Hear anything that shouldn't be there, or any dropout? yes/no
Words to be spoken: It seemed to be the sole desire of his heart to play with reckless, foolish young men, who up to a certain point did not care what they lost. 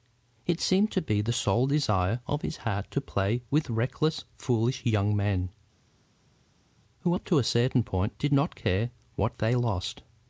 no